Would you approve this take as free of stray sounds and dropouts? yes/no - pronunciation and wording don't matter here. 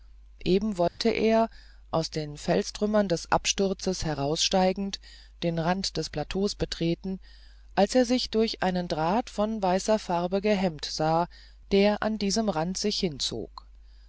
no